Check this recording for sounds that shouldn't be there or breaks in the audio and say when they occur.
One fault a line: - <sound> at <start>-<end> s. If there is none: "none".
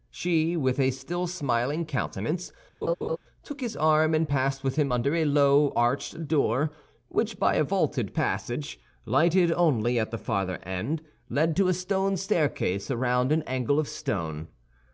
- laugh at 2.8-3.2 s